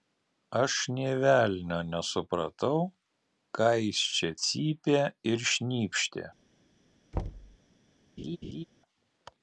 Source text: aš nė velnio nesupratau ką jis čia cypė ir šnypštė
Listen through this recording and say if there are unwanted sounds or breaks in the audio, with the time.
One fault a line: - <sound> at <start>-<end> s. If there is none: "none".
- thud at 7.1-7.6 s
- laugh at 8.2-8.6 s